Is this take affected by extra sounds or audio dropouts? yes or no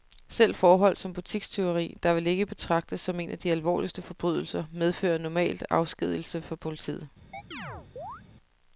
yes